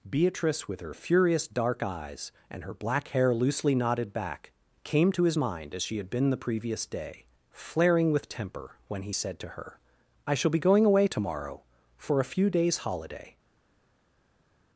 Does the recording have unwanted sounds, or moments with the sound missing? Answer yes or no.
no